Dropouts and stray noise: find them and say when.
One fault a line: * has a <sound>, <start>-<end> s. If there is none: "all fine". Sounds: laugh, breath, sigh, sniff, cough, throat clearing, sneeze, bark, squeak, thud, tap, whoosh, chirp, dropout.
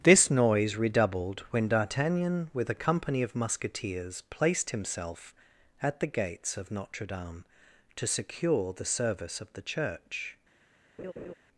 * has a laugh, 11.0-11.3 s